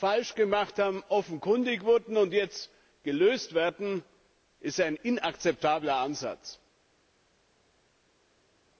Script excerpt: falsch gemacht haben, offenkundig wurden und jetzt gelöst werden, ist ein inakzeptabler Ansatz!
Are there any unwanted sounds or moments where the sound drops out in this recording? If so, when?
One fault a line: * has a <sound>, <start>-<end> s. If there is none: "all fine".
all fine